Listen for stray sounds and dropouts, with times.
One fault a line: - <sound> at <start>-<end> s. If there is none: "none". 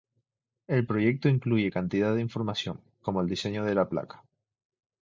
none